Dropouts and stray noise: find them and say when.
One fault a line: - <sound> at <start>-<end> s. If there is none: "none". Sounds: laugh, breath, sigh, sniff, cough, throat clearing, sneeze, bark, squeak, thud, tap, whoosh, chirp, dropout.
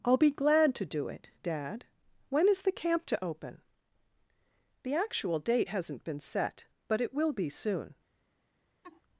- laugh at 8.8-9.0 s